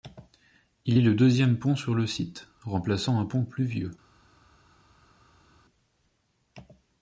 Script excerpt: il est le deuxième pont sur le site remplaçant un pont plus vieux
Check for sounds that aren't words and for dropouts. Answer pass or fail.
pass